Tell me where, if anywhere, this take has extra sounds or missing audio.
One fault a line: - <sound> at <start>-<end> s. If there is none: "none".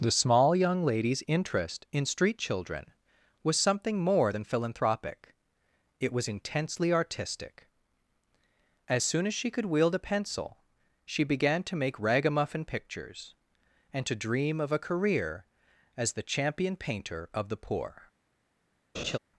- laugh at 18.9-19.2 s